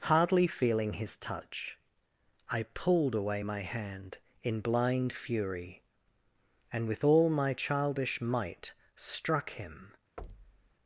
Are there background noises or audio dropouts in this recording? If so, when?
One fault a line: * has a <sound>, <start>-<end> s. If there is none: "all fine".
* has a thud, 10.2-10.7 s